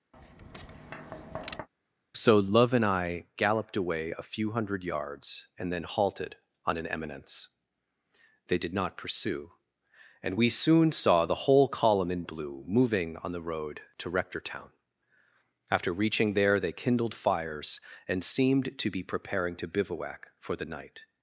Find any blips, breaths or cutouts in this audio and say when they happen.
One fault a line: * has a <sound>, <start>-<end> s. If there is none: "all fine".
* has a tap, 0.1-1.7 s